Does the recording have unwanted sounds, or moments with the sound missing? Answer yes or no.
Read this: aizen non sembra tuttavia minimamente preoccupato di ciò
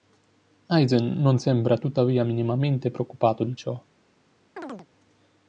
yes